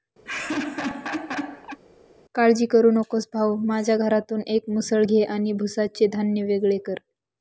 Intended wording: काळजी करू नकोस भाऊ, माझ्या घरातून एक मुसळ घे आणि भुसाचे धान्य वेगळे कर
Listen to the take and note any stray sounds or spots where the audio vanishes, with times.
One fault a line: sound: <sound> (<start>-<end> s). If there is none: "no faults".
sound: laugh (0.2-1.8 s)